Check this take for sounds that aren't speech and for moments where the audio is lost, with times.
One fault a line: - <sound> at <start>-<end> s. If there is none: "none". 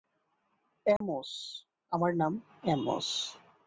- dropout at 1.0-1.0 s